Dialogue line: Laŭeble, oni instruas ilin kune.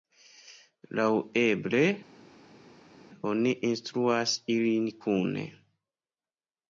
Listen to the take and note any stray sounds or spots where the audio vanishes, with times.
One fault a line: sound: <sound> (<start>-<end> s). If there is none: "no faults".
no faults